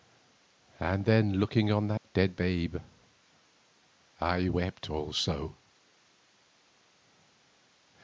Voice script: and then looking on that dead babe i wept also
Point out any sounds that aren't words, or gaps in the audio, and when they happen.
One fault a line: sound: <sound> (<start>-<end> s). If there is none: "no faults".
sound: dropout (2.0-2.0 s)